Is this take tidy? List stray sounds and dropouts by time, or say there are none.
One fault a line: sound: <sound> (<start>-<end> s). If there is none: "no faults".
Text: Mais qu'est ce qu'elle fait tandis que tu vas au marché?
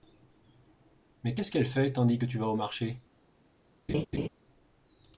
sound: laugh (3.9-4.3 s)